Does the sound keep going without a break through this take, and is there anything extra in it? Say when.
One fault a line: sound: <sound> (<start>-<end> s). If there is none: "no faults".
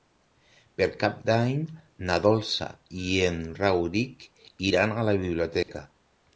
sound: dropout (5.6-5.7 s)